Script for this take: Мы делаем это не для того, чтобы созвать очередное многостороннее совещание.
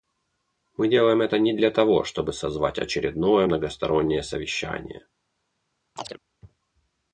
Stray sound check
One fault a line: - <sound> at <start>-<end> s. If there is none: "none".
- chirp at 6.0-6.2 s